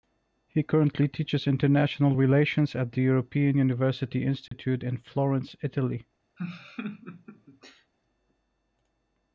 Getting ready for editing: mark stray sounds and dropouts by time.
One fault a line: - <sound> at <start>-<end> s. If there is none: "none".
- dropout at 4.5-4.5 s
- laugh at 6.4-7.9 s